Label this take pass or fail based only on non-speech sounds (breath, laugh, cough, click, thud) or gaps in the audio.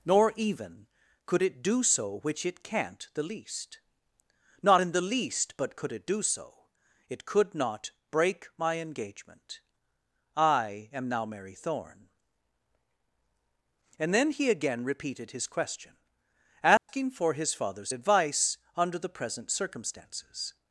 fail